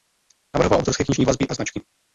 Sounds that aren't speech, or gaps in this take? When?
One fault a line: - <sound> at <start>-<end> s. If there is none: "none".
none